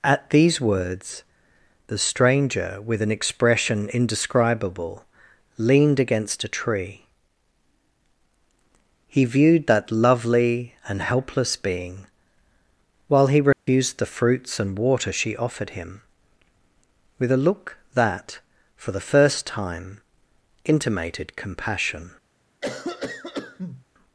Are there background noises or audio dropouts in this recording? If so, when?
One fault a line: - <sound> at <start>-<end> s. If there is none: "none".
- dropout at 13.5-13.7 s
- cough at 22.6-23.8 s